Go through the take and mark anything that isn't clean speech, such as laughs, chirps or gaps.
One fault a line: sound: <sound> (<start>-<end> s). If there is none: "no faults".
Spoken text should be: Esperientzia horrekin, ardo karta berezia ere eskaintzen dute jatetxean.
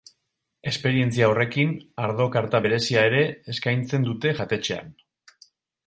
no faults